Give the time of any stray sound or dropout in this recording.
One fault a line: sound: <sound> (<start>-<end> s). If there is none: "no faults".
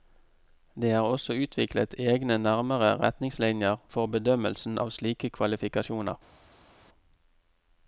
no faults